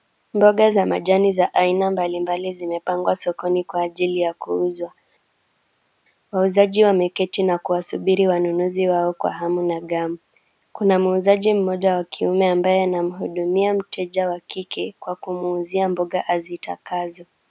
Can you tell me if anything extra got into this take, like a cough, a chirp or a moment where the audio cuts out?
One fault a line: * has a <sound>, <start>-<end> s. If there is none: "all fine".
all fine